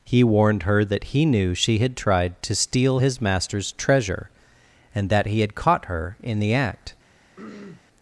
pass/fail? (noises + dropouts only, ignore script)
fail